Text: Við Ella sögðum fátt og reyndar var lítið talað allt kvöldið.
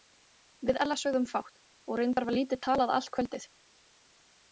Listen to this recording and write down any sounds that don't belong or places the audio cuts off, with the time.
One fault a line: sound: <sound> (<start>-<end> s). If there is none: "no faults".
no faults